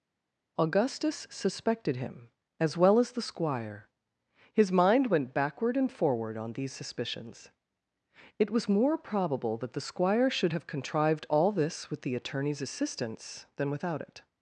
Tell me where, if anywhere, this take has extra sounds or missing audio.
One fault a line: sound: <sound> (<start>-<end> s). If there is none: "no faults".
no faults